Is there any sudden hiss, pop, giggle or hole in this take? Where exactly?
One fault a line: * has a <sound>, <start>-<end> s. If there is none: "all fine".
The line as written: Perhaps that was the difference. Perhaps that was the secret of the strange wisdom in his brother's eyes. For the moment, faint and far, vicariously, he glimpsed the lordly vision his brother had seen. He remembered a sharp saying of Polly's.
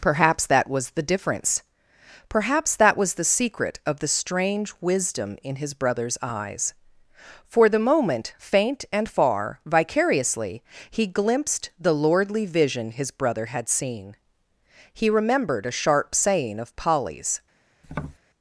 * has a tap, 17.8-18.2 s